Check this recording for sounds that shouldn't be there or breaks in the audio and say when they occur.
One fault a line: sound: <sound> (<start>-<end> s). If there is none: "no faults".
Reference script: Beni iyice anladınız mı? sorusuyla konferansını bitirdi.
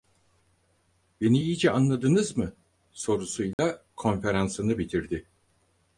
sound: dropout (3.5-3.6 s)